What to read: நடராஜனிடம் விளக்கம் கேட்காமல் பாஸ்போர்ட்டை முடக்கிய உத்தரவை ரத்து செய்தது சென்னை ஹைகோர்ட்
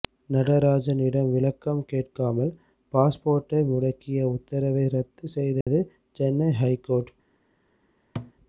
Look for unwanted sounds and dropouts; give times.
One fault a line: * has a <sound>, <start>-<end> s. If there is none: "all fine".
* has a dropout, 5.6-5.7 s
* has a thud, 8.2-8.3 s